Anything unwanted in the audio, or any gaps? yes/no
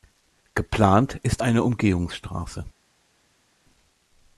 no